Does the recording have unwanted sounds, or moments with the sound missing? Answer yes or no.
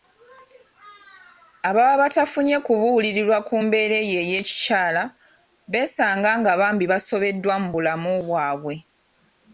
no